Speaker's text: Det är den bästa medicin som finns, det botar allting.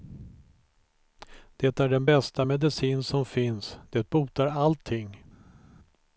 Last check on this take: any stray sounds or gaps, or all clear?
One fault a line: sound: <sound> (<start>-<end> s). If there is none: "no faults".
no faults